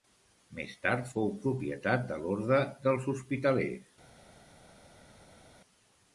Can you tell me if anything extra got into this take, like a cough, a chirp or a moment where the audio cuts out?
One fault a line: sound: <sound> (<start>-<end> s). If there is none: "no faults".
no faults